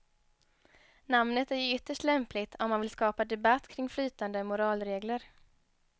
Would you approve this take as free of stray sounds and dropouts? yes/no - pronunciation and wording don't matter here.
yes